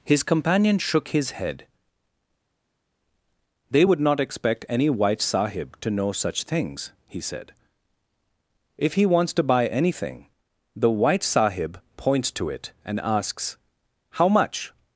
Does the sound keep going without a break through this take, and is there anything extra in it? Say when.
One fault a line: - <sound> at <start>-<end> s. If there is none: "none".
none